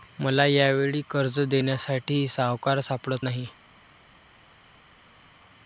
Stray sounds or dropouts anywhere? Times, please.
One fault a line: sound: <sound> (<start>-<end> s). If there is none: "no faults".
no faults